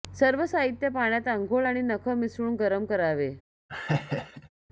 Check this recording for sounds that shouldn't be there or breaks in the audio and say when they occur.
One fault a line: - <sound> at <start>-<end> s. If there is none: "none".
- laugh at 3.7-4.5 s